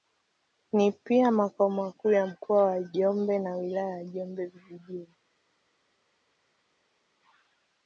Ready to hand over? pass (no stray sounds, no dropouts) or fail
pass